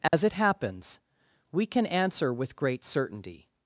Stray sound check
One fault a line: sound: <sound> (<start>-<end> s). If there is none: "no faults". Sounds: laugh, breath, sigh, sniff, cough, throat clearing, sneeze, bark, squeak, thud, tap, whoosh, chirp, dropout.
sound: dropout (0.1-0.1 s)